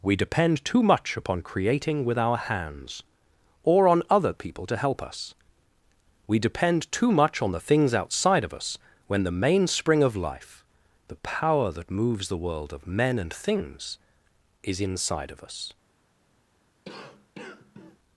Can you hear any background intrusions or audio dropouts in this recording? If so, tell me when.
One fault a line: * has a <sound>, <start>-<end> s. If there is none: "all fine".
* has a cough, 16.8-18.0 s